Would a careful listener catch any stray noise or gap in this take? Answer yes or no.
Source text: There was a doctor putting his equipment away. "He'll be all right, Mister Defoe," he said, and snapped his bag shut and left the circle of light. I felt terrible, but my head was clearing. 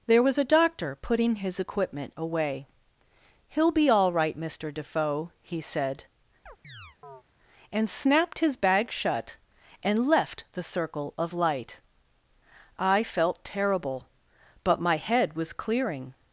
yes